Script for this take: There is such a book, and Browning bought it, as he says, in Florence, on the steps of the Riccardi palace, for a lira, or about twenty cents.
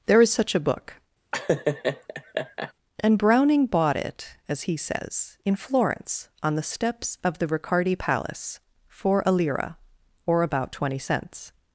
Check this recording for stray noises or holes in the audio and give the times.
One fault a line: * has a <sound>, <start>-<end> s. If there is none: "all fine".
* has a laugh, 1.3-2.7 s